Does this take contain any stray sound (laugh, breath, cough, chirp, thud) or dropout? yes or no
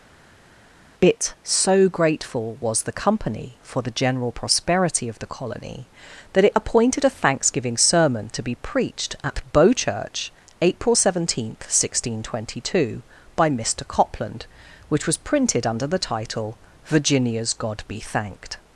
no